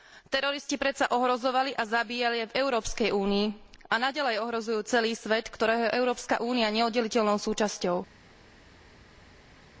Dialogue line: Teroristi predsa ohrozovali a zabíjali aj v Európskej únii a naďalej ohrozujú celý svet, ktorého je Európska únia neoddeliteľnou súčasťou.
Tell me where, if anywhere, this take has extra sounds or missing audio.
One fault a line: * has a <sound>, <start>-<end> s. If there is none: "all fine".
all fine